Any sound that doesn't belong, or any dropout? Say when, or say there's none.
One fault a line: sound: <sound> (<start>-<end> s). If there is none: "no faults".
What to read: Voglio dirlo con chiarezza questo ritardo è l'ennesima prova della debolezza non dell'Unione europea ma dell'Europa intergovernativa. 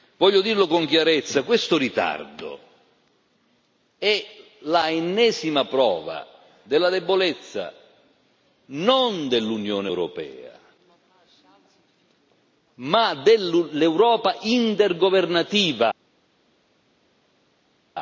no faults